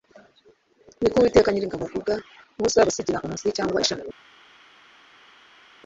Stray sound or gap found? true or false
false